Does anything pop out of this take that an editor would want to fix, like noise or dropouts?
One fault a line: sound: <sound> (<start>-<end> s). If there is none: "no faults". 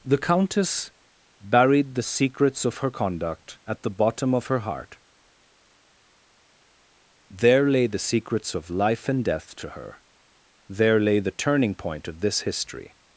no faults